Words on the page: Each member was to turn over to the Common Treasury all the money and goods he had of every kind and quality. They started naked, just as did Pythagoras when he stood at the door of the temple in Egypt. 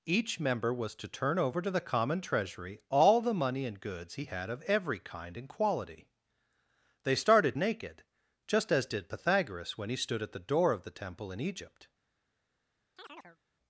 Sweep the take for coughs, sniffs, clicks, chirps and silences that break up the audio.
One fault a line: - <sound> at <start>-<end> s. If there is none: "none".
- chirp at 13.0-13.4 s